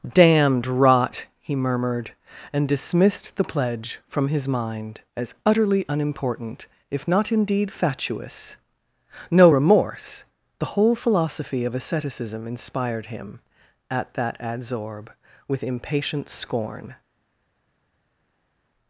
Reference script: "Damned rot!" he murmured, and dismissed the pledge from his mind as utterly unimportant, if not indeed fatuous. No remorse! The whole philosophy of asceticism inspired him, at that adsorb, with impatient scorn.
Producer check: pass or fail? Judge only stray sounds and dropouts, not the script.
pass